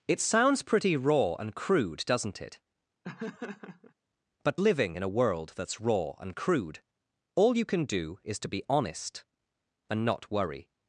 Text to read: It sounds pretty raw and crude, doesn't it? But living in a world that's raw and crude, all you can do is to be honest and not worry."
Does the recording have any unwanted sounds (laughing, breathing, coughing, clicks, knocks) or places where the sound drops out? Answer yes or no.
yes